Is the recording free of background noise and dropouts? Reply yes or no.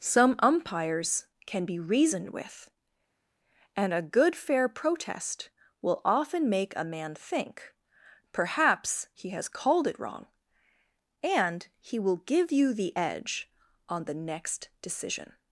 yes